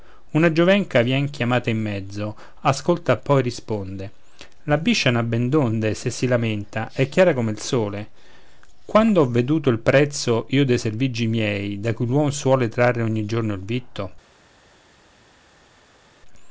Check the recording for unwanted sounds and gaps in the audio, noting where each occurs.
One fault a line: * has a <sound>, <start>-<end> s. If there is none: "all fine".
all fine